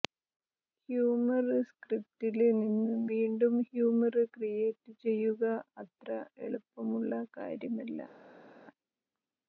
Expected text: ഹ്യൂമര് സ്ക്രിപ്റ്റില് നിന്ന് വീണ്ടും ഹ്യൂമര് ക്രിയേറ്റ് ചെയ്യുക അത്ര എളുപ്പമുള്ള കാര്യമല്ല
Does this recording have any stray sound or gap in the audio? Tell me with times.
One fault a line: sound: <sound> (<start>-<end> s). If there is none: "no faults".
no faults